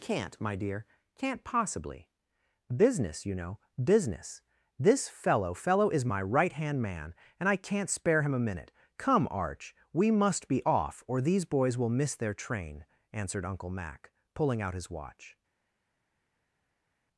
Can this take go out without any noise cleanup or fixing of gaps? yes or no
yes